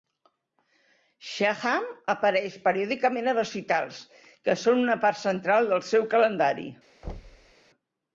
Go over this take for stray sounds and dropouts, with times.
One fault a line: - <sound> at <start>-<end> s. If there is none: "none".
- thud at 7.0-7.5 s